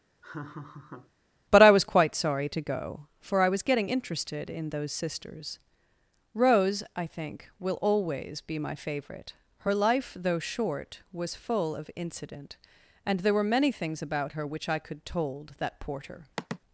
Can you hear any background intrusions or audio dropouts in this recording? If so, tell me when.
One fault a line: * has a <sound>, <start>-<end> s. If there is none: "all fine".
* has a laugh, 0.2-1.1 s
* has a sigh, 16.4-16.6 s